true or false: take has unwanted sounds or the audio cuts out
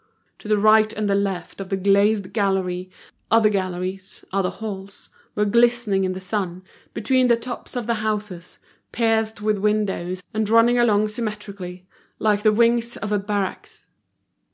false